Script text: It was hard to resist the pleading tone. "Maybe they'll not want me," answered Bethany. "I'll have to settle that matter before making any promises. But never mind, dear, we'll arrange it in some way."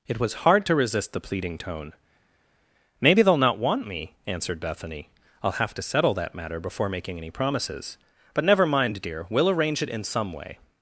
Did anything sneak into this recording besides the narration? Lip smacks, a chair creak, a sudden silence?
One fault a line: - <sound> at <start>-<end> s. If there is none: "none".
none